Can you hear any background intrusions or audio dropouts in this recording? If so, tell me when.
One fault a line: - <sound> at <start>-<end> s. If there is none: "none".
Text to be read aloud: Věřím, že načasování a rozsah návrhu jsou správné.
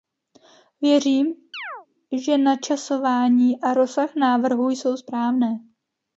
- chirp at 1.5-1.9 s